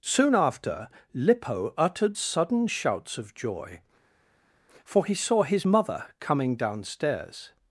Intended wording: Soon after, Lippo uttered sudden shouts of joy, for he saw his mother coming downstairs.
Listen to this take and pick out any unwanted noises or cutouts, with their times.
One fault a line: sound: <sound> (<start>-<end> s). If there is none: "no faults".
no faults